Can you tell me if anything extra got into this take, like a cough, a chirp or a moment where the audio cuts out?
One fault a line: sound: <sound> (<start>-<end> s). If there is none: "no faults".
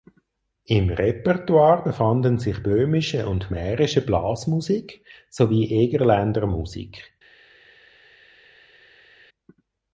no faults